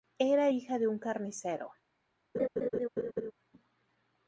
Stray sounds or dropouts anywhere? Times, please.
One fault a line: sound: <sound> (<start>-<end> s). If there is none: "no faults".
sound: laugh (2.3-3.3 s)